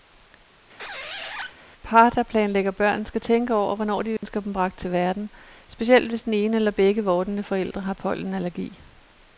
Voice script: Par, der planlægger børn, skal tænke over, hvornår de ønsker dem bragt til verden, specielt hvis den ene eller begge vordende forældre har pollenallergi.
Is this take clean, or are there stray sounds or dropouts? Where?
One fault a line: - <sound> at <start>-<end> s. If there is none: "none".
- squeak at 0.8-1.6 s
- dropout at 4.2-4.2 s